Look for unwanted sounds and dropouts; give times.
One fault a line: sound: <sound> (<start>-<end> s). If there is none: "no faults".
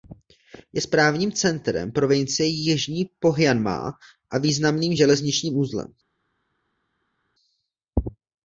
no faults